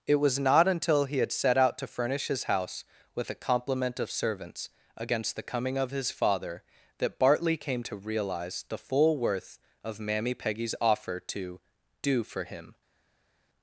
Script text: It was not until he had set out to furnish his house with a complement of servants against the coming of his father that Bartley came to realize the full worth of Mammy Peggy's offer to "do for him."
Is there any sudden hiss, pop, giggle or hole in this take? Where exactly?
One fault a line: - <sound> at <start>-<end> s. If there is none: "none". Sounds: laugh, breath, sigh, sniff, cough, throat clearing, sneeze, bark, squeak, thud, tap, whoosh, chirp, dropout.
none